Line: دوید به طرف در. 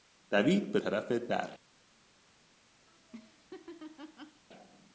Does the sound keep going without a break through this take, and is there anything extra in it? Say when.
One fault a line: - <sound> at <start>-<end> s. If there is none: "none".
- laugh at 2.9-4.4 s